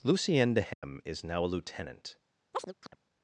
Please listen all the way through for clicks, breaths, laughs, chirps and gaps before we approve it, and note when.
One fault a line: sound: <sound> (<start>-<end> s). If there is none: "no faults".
sound: dropout (0.7-0.8 s)
sound: chirp (2.5-3.0 s)